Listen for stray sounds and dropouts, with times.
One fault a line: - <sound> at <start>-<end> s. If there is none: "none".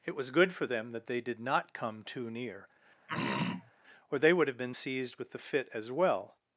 - throat clearing at 3.1-3.7 s